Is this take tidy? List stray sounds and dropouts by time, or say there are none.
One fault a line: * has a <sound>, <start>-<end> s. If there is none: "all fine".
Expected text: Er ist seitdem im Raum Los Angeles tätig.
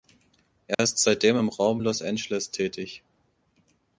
* has a dropout, 0.7-0.8 s